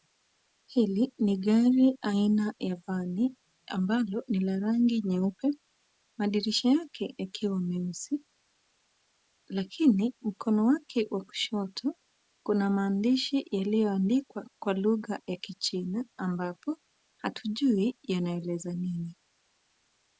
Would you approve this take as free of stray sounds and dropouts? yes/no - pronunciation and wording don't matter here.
yes